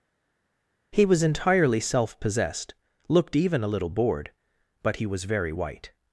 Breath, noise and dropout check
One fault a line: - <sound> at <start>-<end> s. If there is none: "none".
none